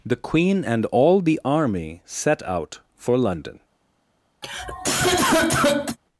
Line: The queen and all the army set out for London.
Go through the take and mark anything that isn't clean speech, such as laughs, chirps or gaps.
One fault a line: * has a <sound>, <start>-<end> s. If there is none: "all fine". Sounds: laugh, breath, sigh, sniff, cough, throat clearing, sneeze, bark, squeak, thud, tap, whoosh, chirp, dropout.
* has a cough, 4.4-6.0 s